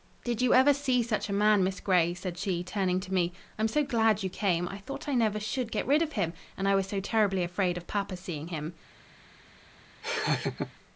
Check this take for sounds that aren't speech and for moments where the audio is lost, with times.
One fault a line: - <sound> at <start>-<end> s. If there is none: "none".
- laugh at 10.0-10.7 s